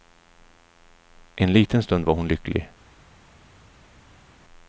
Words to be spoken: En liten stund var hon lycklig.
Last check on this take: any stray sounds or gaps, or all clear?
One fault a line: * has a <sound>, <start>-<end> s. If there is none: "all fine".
all fine